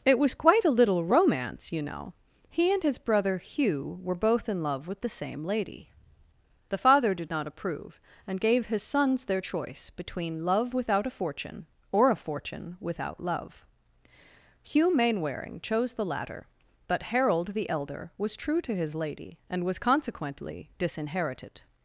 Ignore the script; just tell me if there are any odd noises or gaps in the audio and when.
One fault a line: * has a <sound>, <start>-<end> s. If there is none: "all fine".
all fine